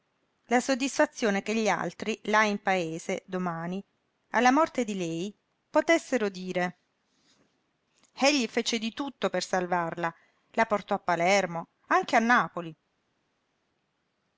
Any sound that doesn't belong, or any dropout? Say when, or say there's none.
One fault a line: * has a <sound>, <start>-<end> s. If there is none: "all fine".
all fine